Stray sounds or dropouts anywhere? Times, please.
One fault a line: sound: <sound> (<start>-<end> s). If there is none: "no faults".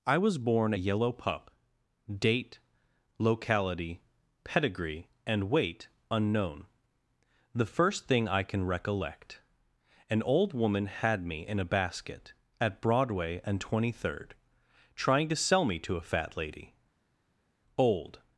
no faults